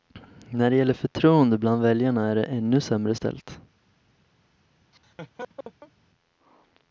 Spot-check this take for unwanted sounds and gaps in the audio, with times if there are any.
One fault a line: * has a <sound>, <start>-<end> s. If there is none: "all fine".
* has a laugh, 4.9-5.9 s